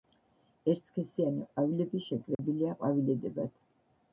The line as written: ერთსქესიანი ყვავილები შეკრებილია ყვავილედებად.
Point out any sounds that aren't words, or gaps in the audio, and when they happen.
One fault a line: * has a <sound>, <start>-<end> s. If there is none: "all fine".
* has a dropout, 2.3-2.4 s